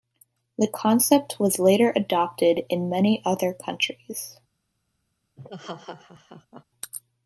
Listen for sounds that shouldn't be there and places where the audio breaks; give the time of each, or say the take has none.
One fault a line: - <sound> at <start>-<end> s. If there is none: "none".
- laugh at 5.4-6.6 s